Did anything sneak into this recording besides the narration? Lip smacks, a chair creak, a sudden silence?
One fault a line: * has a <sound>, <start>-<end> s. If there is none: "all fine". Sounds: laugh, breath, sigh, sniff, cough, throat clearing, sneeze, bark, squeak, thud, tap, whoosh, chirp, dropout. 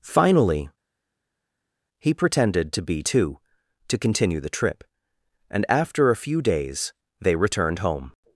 all fine